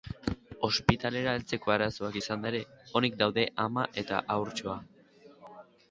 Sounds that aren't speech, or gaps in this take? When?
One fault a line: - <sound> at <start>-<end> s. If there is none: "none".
none